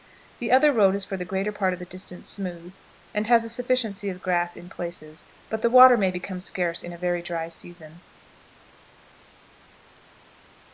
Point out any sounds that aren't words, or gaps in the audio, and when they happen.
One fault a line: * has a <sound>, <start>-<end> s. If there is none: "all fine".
all fine